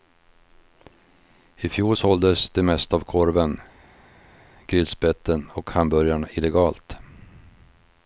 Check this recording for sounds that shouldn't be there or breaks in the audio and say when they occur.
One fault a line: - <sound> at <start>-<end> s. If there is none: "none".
none